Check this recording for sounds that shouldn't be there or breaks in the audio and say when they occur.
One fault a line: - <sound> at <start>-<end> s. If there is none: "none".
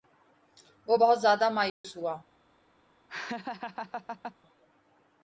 - dropout at 1.7-1.8 s
- laugh at 3.1-4.4 s